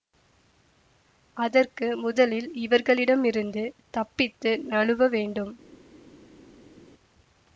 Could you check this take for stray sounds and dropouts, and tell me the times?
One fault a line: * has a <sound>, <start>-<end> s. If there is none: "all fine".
all fine